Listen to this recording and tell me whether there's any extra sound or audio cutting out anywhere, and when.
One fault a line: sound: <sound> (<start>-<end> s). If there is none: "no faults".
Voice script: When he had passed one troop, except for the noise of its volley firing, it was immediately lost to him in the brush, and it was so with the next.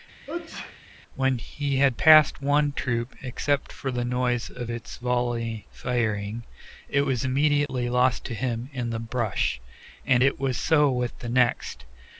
sound: sneeze (0.3-0.8 s)
sound: dropout (7.7-7.7 s)